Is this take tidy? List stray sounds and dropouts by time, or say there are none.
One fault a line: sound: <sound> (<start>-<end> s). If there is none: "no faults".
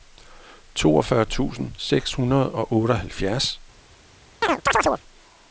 sound: chirp (4.4-5.0 s)